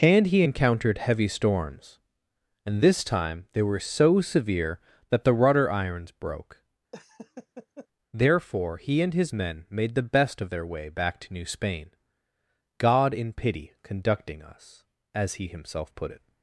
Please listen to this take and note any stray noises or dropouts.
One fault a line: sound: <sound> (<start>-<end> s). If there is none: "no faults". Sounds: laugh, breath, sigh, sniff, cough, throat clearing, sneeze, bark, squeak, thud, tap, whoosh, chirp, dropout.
sound: laugh (6.9-7.9 s)